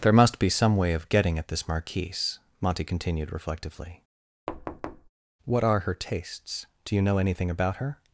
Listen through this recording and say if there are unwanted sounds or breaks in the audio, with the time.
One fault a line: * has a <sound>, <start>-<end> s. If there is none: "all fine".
* has a thud, 4.5-5.1 s